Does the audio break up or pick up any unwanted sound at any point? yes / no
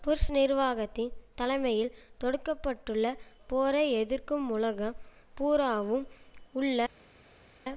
no